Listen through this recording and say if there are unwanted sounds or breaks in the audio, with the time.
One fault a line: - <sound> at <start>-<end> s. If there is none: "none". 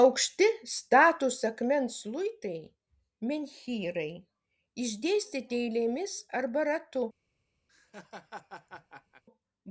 - laugh at 7.7-9.2 s